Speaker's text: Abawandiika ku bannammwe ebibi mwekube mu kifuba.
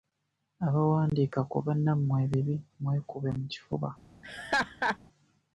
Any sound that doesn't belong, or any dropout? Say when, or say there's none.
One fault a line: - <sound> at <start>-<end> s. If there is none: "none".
- laugh at 4.2-5.0 s